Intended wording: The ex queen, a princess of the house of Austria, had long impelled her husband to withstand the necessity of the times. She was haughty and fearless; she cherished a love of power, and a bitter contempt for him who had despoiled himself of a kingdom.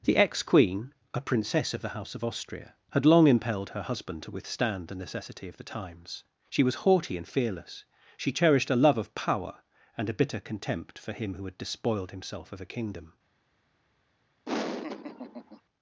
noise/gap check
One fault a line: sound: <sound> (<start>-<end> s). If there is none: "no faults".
sound: laugh (14.5-15.6 s)